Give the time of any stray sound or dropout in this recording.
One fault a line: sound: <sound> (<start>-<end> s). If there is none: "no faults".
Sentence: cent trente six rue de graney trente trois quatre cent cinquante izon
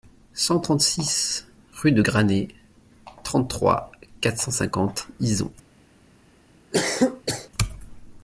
sound: cough (6.7-7.5 s)